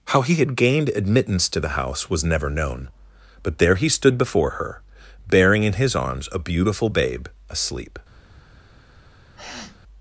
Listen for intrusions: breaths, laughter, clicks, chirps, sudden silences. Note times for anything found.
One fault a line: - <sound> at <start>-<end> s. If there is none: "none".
- sniff at 9.4-9.8 s